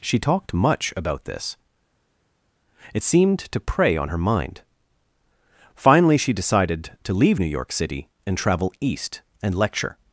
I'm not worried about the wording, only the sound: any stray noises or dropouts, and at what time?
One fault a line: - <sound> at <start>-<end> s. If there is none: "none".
none